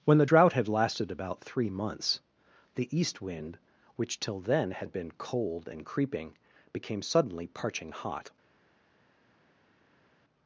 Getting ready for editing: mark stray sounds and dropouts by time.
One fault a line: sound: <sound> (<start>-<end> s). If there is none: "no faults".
no faults